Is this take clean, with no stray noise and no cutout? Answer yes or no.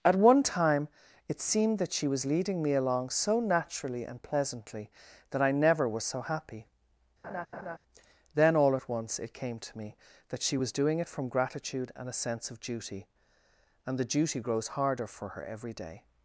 no